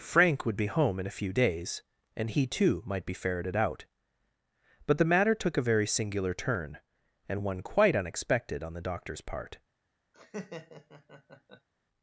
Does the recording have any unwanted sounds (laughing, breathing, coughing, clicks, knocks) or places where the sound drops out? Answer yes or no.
yes